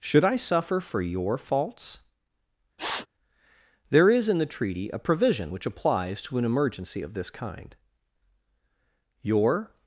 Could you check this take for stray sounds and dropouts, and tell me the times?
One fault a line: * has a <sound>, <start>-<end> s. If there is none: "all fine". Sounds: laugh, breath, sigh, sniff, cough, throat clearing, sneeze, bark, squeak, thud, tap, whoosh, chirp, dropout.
* has a sniff, 2.8-3.1 s